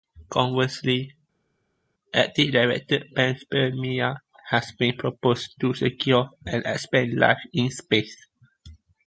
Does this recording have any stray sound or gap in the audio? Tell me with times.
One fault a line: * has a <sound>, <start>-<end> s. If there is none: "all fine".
all fine